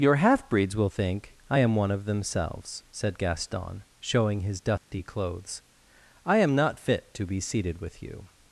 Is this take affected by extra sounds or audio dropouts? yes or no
yes